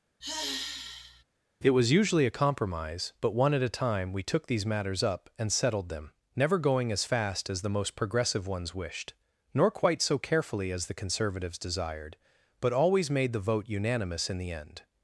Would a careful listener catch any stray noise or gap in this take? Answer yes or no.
yes